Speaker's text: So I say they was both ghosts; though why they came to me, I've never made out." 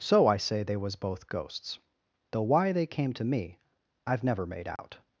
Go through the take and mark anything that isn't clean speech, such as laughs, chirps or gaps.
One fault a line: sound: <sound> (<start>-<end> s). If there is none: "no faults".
sound: dropout (4.8-4.8 s)